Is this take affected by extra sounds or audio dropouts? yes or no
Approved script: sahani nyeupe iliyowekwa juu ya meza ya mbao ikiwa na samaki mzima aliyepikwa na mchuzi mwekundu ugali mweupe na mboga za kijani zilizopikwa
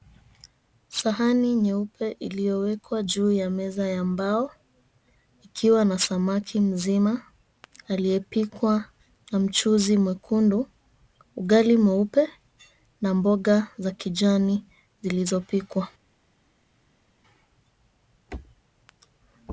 no